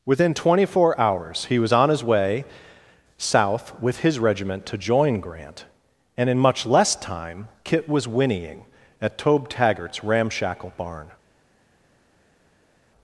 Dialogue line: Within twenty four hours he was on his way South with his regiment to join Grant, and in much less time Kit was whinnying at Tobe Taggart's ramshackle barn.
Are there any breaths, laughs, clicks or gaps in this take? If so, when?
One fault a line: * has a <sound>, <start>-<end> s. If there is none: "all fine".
all fine